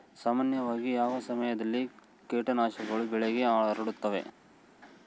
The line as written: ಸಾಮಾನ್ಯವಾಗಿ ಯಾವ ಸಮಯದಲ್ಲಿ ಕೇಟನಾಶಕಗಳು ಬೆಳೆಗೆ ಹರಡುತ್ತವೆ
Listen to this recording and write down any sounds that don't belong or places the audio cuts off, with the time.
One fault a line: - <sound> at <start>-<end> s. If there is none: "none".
none